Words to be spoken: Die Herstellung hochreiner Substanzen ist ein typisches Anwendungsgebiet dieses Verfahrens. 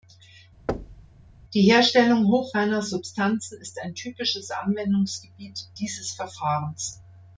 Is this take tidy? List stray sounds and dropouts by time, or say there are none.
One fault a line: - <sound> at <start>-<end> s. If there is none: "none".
- thud at 0.7-1.1 s